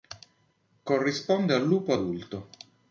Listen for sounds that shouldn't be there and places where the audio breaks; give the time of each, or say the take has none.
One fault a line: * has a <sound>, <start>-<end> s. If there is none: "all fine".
all fine